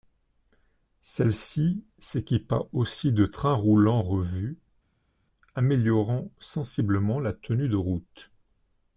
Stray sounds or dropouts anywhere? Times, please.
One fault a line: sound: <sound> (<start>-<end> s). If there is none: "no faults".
no faults